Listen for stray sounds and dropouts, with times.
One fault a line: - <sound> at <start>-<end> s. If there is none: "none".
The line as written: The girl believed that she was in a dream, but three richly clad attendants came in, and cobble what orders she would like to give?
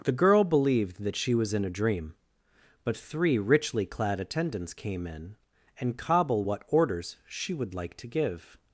none